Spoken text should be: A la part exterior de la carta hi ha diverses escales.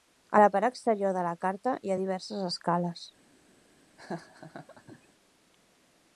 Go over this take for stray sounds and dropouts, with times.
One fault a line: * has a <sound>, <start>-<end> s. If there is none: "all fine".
* has a laugh, 4.0-5.1 s